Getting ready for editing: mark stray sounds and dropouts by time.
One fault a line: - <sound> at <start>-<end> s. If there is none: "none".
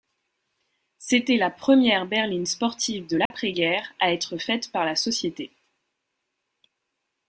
- dropout at 3.3-3.3 s